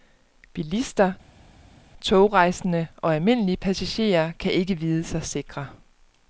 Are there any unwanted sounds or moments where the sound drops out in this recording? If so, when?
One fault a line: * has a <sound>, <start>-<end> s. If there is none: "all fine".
all fine